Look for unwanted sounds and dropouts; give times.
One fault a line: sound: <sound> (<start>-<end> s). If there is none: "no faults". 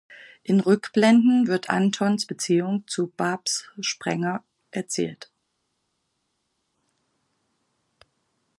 no faults